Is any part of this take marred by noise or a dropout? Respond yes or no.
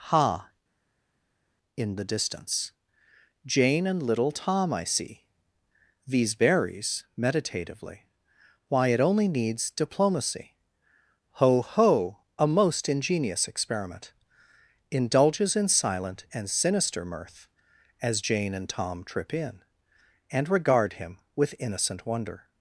no